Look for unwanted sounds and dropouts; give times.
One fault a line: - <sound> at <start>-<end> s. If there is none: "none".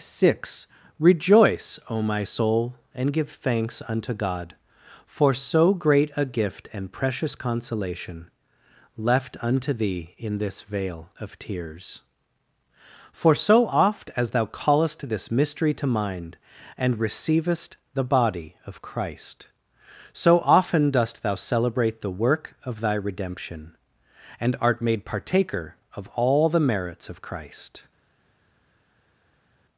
none